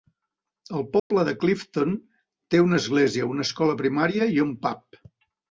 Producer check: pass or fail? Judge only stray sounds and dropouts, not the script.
fail